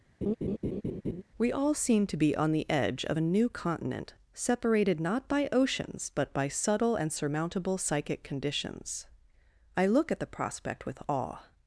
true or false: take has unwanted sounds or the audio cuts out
true